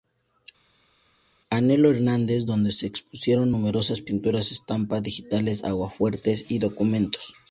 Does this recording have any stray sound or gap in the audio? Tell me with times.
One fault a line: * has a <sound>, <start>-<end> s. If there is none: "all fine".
all fine